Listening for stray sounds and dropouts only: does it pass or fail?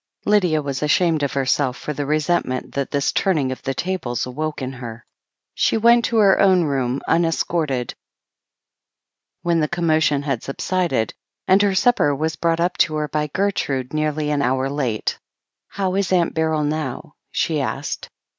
pass